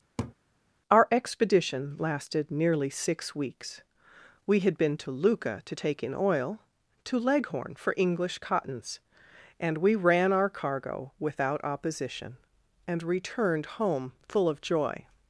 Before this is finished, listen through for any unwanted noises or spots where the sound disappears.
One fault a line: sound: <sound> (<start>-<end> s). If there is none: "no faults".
sound: laugh (0.2-0.3 s)